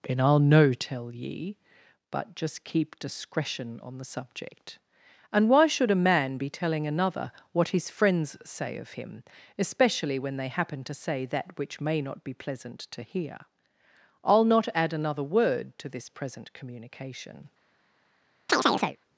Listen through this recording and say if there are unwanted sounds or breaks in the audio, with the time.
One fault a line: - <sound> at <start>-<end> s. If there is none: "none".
- chirp at 18.5-19.0 s